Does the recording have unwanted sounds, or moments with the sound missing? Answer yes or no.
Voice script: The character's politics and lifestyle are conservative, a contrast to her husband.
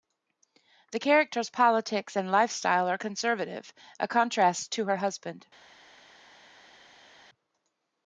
no